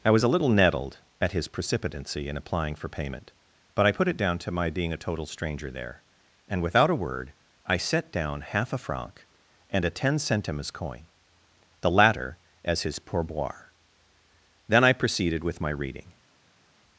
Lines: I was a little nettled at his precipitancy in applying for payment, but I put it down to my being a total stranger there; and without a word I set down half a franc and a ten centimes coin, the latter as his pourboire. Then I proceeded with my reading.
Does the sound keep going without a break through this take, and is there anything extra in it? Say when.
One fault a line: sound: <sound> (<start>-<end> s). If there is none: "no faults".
no faults